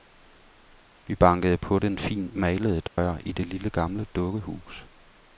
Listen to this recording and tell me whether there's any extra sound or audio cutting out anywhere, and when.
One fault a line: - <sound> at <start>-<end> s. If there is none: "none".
- dropout at 2.9-3.0 s